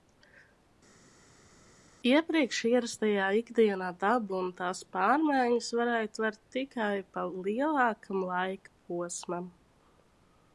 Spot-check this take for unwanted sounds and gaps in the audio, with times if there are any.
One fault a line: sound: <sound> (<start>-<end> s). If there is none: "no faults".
no faults